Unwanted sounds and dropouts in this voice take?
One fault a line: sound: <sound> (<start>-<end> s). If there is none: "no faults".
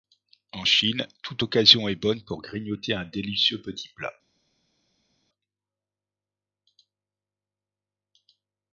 no faults